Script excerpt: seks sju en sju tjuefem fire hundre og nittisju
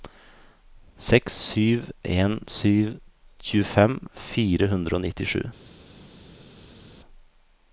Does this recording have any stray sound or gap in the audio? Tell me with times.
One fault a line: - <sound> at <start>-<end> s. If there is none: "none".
none